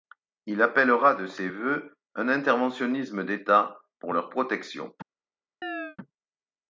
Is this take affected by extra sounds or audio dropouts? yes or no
yes